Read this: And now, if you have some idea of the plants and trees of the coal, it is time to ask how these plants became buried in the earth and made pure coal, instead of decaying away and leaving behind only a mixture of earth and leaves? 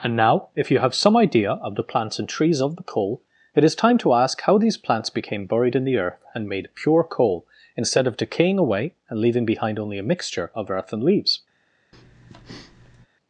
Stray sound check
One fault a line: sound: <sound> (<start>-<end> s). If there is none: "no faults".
sound: breath (11.9-13.1 s)